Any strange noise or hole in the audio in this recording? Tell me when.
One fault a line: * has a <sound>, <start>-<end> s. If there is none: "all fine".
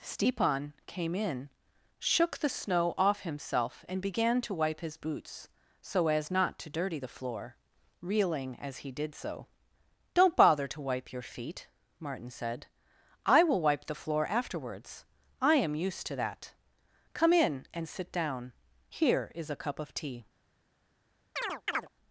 * has a chirp, 21.4-21.9 s